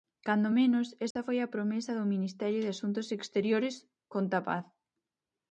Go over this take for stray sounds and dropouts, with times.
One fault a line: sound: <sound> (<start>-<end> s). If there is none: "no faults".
sound: dropout (1.1-1.2 s)